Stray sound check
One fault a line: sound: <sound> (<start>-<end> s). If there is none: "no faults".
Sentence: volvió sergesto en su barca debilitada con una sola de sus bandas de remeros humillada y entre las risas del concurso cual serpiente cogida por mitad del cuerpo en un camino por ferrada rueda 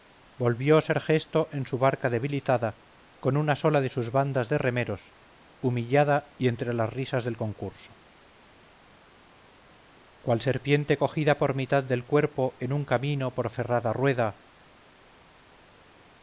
no faults